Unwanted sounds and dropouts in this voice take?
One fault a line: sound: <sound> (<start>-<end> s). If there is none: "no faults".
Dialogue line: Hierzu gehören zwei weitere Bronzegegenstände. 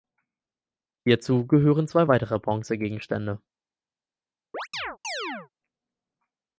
sound: chirp (4.5-5.5 s)